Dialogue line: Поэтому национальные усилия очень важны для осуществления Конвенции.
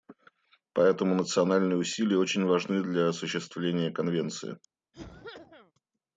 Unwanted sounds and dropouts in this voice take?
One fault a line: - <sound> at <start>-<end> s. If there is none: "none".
- cough at 4.9-5.7 s